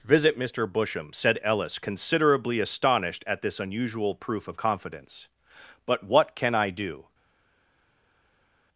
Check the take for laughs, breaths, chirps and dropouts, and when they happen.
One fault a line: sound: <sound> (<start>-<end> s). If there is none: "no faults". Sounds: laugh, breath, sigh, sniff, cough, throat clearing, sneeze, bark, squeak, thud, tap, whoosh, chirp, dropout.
no faults